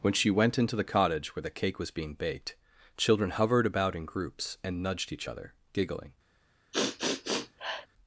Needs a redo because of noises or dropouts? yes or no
yes